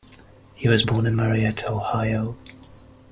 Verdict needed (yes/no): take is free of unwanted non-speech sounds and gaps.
yes